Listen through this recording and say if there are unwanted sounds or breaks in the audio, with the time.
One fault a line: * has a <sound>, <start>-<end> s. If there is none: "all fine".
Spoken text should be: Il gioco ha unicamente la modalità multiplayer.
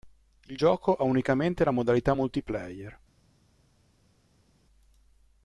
all fine